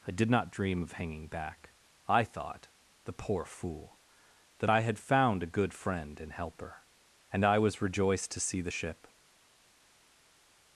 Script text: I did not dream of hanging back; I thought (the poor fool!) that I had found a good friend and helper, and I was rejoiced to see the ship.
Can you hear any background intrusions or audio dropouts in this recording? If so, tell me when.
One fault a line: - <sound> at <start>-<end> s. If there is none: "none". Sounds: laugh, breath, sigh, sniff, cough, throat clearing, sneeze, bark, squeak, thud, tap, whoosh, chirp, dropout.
none